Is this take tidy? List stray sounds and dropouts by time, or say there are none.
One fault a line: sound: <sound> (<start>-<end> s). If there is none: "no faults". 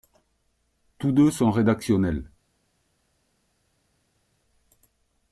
no faults